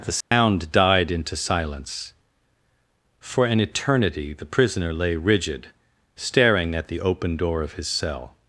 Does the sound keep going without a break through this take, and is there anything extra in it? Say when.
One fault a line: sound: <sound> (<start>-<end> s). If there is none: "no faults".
sound: dropout (0.2-0.3 s)